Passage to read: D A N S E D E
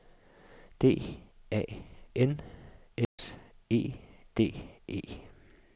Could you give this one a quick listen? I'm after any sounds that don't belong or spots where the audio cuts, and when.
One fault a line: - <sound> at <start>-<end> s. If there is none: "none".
- dropout at 3.0-3.2 s